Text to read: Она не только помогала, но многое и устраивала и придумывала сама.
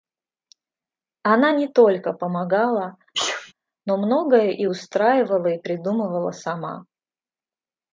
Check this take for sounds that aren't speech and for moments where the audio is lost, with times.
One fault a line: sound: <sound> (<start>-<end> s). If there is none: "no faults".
sound: sneeze (3.1-3.5 s)